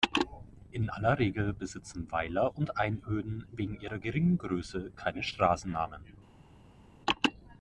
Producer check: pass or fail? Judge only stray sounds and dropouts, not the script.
pass